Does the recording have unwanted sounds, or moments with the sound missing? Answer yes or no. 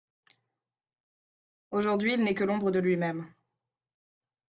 no